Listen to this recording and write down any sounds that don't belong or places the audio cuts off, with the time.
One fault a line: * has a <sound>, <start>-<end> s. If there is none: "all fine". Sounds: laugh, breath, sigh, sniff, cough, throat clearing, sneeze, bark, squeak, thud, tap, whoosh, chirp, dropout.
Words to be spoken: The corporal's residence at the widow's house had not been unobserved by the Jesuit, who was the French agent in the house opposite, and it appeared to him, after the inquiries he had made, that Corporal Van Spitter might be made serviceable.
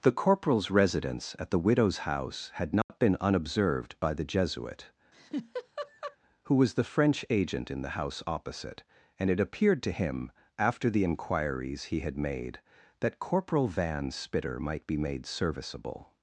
* has a dropout, 2.8-2.9 s
* has a laugh, 5.1-6.2 s